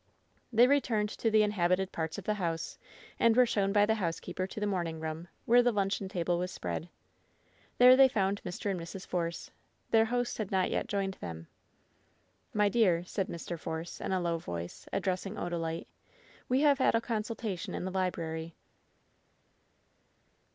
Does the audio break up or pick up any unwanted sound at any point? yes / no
no